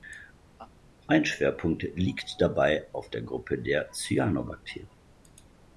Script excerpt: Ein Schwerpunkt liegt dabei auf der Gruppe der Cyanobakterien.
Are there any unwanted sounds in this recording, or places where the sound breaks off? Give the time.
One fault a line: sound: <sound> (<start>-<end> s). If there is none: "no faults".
sound: laugh (0.6-0.7 s)